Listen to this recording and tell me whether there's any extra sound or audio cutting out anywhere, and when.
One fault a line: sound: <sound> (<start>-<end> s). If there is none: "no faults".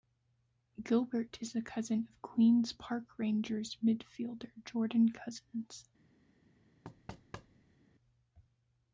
sound: thud (6.8-7.8 s)